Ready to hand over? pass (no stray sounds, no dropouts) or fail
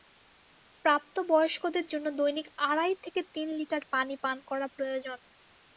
pass